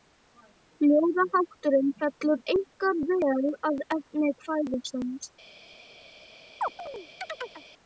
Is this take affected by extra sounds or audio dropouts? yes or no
yes